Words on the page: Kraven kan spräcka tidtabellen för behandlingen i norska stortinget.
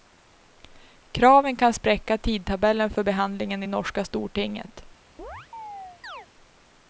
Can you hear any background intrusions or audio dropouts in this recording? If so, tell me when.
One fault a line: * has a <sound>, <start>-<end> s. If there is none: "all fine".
* has a chirp, 5.2-6.3 s